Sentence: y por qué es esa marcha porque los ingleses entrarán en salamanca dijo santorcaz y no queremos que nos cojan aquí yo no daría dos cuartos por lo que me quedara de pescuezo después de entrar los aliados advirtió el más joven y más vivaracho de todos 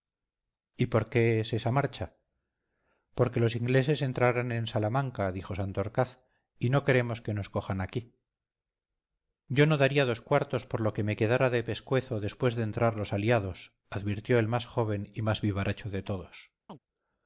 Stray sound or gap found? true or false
true